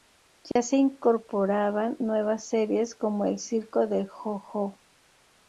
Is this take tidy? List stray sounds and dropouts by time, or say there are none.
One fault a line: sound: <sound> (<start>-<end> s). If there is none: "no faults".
sound: dropout (0.5-0.6 s)